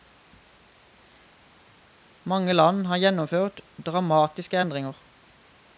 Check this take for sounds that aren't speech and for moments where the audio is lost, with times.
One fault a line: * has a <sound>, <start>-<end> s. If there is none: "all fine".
all fine